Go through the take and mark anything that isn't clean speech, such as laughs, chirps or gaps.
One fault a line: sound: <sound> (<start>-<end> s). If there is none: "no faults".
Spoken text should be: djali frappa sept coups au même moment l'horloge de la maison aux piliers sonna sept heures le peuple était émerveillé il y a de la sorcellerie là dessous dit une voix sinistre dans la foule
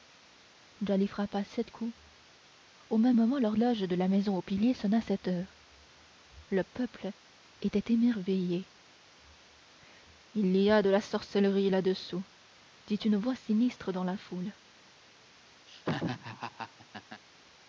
sound: laugh (15.7-17.2 s)